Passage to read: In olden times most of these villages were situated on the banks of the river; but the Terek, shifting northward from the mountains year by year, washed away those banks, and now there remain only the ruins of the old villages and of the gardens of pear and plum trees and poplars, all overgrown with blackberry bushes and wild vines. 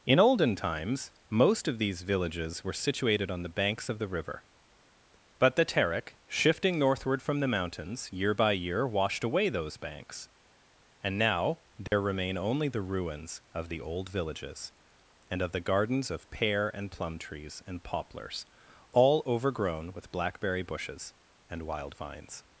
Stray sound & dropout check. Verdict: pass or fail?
fail